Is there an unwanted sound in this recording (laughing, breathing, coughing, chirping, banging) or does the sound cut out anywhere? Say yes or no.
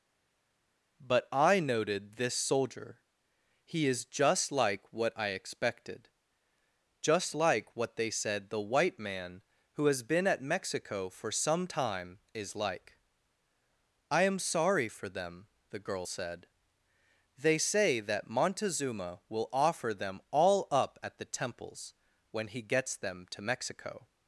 no